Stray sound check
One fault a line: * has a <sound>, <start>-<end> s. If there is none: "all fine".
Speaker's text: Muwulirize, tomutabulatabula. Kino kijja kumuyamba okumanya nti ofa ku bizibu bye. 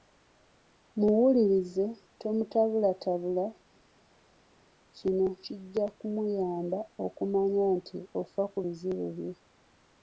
all fine